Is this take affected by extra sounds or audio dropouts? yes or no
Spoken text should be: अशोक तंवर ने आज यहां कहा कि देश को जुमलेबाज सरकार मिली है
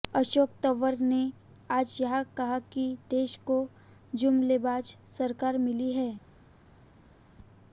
no